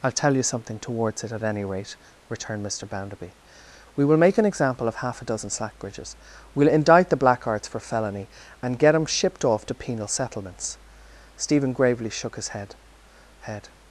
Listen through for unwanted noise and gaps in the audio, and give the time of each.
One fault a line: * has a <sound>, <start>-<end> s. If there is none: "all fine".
all fine